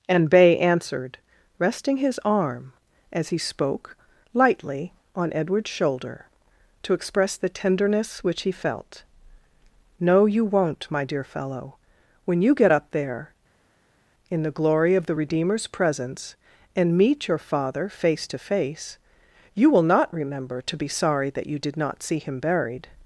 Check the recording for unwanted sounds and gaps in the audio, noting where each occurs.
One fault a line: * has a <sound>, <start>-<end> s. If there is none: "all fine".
all fine